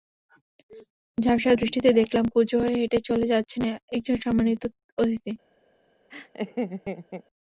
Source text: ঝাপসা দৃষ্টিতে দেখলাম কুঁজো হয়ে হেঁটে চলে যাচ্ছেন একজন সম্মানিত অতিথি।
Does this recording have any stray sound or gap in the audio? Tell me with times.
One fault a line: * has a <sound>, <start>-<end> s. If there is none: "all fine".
* has a laugh, 6.1-7.2 s